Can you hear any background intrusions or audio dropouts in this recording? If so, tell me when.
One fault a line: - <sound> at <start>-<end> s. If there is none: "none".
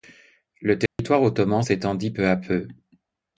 - dropout at 0.9-1.0 s